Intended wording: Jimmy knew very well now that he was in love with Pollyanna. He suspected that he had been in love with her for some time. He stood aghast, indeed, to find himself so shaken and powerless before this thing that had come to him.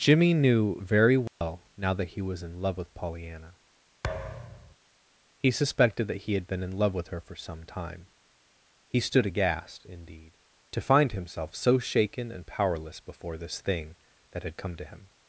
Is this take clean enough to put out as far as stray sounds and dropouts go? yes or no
no